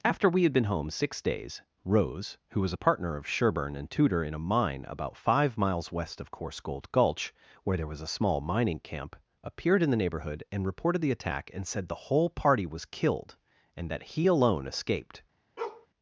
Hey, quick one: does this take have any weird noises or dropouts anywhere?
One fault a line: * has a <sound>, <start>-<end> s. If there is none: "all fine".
* has a bark, 15.6-15.9 s